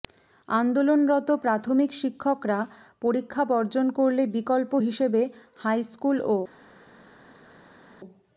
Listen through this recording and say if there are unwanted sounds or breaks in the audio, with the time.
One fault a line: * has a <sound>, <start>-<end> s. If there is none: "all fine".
all fine